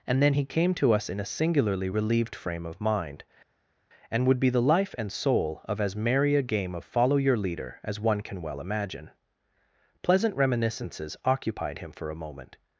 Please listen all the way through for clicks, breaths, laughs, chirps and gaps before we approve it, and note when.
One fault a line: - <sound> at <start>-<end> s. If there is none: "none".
none